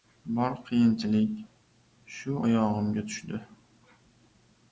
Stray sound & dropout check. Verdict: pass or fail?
pass